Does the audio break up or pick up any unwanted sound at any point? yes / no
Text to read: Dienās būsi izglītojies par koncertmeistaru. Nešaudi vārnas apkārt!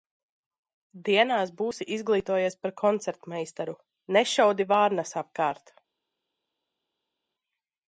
no